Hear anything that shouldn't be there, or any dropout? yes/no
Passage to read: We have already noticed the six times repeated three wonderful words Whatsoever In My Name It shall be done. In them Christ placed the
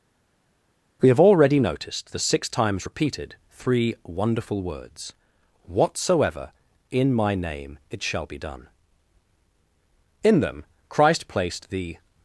no